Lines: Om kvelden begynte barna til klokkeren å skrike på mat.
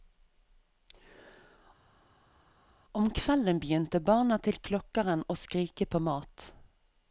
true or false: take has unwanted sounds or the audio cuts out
false